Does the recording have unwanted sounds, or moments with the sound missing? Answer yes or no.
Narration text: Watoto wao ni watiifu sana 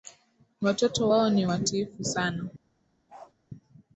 yes